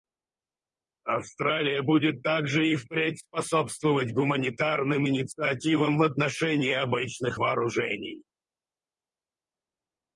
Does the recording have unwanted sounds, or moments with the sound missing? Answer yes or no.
no